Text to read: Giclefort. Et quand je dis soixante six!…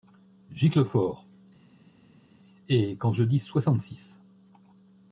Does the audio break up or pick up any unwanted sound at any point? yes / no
no